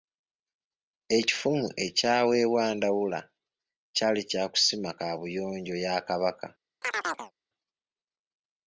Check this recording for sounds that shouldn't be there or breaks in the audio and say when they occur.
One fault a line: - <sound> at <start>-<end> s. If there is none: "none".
- chirp at 6.8-7.3 s